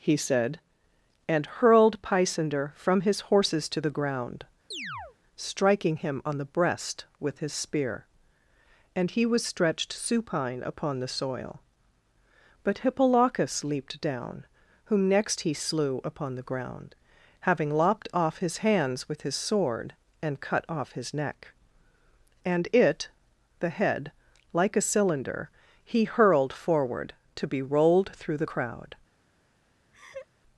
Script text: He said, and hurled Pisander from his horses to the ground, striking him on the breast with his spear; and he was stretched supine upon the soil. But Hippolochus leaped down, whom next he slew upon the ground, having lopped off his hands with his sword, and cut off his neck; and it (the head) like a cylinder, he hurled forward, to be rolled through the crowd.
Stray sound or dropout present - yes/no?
yes